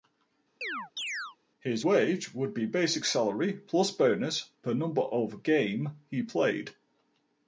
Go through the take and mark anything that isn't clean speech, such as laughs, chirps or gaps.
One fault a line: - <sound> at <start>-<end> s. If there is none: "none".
- chirp at 0.6-1.4 s